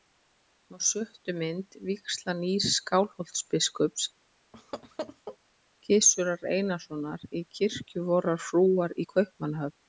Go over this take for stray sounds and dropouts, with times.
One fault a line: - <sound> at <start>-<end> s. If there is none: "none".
- laugh at 4.5-5.4 s